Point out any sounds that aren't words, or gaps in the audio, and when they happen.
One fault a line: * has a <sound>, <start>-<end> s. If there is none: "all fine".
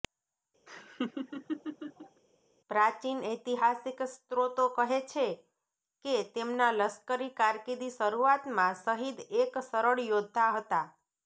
* has a laugh, 0.7-2.2 s